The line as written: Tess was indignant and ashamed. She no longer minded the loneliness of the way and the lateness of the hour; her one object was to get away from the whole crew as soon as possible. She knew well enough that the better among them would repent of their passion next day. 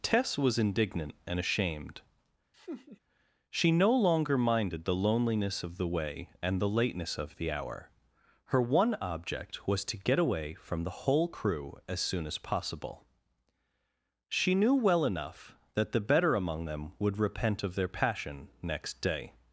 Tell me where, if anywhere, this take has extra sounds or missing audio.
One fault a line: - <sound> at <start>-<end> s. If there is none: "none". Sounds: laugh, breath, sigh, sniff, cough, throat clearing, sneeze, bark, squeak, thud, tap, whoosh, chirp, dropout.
- laugh at 2.5-3.0 s